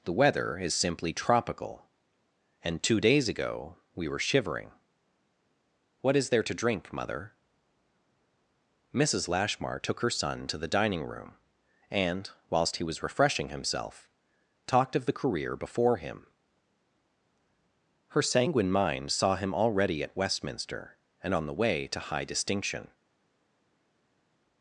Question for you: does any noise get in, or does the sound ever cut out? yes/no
no